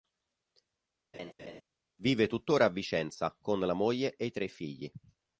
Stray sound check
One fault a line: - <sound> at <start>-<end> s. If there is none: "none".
- laugh at 1.1-1.6 s